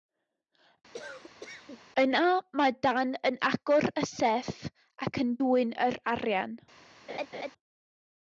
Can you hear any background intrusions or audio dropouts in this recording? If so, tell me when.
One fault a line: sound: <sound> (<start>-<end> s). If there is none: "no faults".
sound: cough (0.9-1.8 s)
sound: laugh (7.1-7.5 s)